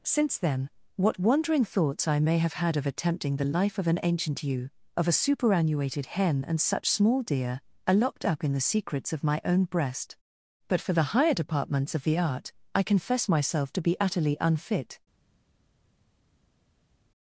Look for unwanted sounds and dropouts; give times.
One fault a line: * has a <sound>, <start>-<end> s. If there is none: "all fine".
all fine